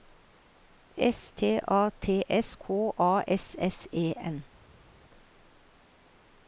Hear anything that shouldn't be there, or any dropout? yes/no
no